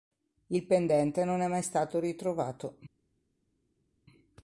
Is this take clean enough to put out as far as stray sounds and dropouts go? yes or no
yes